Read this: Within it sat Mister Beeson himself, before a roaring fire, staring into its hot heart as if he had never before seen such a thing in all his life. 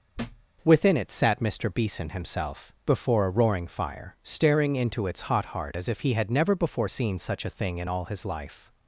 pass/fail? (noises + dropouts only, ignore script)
fail